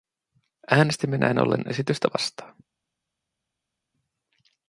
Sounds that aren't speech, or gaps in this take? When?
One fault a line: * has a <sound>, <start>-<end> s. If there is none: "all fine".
all fine